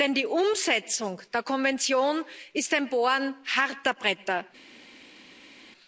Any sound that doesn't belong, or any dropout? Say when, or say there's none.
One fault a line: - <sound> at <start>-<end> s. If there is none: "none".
none